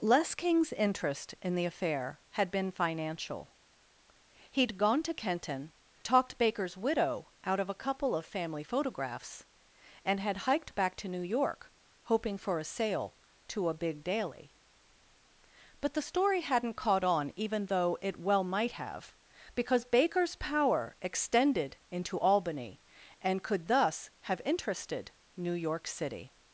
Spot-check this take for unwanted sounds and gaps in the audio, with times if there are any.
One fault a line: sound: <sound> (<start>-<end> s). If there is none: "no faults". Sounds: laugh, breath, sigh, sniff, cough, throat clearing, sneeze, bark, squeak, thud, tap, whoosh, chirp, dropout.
no faults